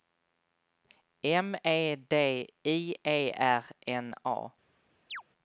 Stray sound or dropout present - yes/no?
yes